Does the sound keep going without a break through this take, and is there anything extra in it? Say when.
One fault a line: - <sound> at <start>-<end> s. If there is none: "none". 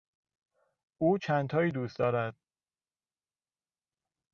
none